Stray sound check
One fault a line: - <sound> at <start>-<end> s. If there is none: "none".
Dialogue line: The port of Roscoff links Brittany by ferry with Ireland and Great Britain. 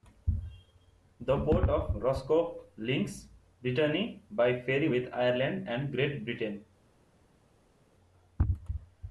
none